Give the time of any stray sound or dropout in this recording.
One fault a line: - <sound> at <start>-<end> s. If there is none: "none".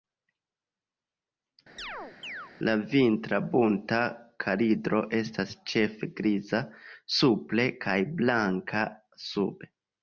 - chirp at 1.8-2.5 s